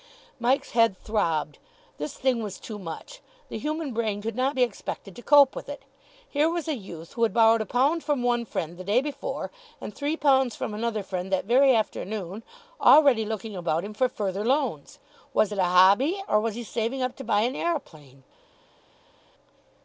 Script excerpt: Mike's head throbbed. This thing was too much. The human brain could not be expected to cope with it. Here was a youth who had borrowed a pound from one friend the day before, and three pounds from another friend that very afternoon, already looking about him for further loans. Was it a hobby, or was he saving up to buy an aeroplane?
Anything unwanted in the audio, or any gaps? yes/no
no